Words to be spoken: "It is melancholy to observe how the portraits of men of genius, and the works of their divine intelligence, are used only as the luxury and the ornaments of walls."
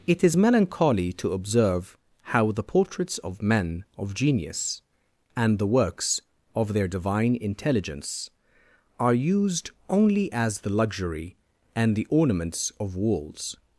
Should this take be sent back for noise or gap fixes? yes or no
no